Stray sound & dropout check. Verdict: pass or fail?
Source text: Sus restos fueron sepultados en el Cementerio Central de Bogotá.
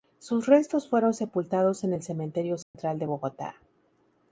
fail